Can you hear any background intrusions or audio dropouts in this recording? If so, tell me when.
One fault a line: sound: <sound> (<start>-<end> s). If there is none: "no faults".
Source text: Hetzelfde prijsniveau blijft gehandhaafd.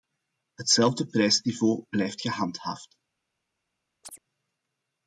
sound: chirp (4.0-4.2 s)